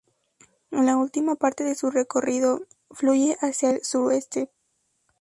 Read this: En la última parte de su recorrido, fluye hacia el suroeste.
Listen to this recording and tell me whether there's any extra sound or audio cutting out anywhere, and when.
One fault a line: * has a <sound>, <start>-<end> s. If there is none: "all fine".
all fine